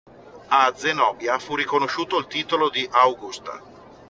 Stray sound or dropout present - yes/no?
no